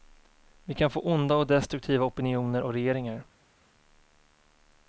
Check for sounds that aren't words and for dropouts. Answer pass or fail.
pass